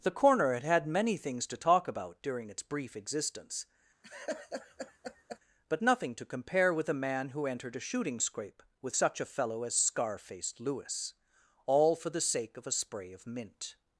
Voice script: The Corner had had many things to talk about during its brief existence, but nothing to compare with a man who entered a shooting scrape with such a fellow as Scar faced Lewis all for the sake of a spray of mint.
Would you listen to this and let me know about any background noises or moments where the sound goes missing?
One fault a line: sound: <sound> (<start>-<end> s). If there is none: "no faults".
sound: laugh (4.0-5.4 s)